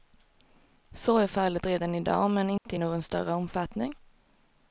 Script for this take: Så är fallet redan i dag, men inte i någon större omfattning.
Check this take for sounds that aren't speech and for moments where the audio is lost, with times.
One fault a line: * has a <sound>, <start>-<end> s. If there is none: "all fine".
* has a dropout, 2.6-2.7 s